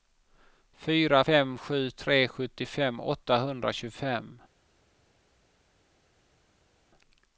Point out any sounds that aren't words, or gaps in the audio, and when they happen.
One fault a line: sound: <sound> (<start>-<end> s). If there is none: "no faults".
no faults